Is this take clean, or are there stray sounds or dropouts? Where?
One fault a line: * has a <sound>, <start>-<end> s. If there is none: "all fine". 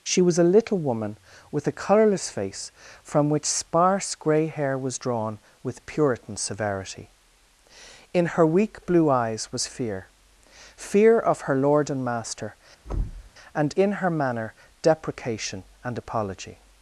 * has a thud, 12.8-13.3 s